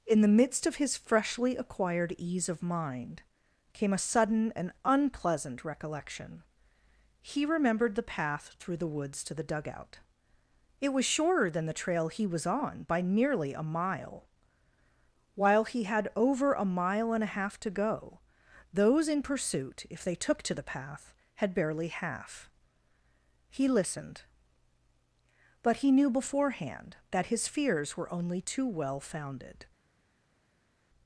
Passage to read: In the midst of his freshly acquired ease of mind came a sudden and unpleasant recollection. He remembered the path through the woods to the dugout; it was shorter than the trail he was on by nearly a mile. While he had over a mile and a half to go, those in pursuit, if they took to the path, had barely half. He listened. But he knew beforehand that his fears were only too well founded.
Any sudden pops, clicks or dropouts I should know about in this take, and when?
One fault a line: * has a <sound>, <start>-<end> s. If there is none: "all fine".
all fine